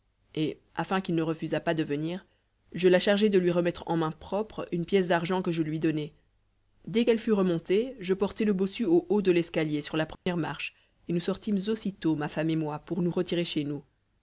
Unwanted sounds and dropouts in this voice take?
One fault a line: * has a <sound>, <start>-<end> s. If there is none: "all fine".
* has a dropout, 10.2-10.3 s